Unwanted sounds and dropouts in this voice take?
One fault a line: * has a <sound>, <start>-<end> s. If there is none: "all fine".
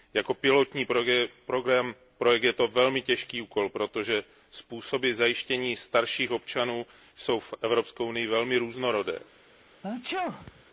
* has a sneeze, 9.8-10.6 s